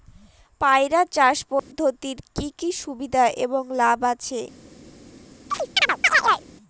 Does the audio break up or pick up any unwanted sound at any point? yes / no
yes